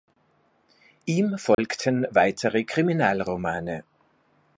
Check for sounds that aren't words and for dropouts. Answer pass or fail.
fail